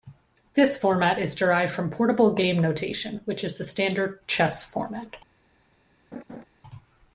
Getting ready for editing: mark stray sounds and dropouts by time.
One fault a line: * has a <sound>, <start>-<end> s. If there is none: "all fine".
* has a laugh, 6.1-6.4 s